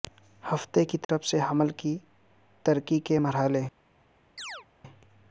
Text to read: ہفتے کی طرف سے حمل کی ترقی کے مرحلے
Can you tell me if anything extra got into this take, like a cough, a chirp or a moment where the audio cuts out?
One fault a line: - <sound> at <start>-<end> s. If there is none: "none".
- dropout at 1.0-1.1 s
- chirp at 4.4-4.7 s